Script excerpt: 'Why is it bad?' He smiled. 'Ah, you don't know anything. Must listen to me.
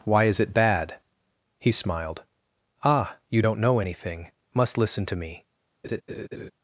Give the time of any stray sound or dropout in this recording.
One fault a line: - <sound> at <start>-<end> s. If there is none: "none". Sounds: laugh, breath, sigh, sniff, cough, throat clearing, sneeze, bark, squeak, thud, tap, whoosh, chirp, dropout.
- laugh at 5.8-6.5 s